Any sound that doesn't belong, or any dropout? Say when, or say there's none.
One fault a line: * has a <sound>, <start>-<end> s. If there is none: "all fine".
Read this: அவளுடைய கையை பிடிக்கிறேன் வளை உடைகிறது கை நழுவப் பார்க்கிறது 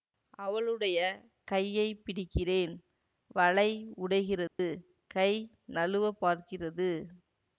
* has a dropout, 4.5-4.6 s